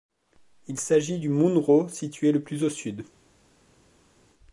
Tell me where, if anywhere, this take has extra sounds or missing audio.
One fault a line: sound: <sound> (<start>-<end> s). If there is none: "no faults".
no faults